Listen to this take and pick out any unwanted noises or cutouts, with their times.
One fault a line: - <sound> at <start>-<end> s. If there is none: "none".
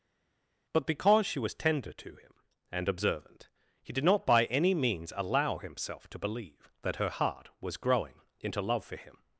none